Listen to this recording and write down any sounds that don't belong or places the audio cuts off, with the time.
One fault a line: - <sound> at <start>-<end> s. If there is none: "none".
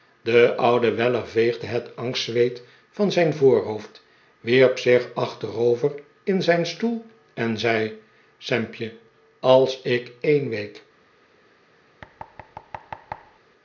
- thud at 12.0-13.4 s